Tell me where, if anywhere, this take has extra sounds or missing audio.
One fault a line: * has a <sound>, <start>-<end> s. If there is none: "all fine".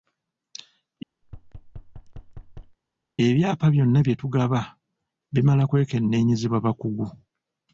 * has a thud, 1.2-2.8 s